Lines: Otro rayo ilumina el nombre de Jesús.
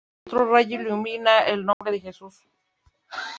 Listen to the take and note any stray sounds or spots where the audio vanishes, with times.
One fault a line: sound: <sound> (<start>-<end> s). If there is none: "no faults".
sound: dropout (1.7-1.8 s)